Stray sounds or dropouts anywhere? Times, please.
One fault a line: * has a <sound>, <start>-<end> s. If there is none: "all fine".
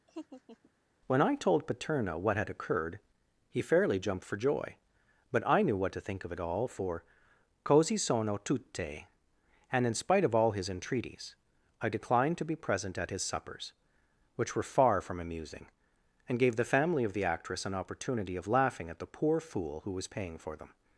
* has a laugh, 0.1-0.7 s